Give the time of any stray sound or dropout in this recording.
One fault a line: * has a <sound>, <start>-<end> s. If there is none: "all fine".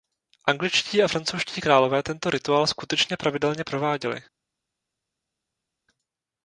all fine